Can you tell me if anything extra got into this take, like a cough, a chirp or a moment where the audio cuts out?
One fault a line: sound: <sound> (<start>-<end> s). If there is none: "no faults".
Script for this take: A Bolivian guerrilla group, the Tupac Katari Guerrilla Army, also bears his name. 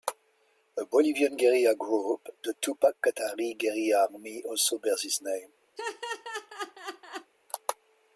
sound: laugh (5.8-7.3 s)